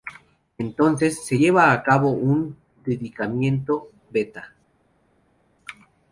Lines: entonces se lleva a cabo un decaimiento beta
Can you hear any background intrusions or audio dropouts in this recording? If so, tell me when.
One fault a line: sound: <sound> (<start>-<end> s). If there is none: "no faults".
no faults